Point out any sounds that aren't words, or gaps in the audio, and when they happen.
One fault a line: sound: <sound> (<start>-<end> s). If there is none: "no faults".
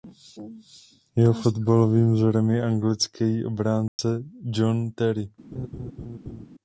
sound: dropout (3.9-4.0 s)
sound: laugh (5.5-6.5 s)